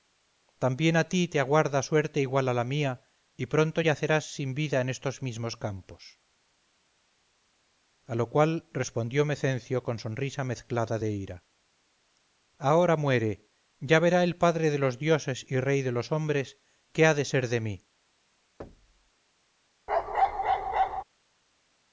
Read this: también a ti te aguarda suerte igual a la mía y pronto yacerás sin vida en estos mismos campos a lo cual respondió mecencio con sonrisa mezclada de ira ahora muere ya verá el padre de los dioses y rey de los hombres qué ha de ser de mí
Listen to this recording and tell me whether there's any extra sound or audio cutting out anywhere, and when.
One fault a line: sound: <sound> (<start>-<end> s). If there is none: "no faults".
sound: thud (18.6-19.1 s)
sound: bark (19.9-21.0 s)